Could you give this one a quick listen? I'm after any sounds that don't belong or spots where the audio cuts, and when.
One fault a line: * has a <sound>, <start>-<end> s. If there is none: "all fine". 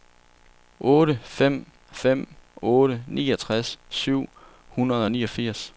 all fine